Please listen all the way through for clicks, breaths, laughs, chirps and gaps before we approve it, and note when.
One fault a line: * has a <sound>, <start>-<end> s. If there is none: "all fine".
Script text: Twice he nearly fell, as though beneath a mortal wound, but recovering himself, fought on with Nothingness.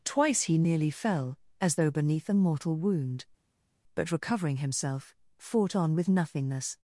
all fine